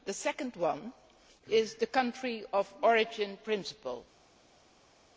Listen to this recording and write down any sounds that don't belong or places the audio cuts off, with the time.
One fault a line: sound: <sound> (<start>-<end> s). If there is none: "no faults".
no faults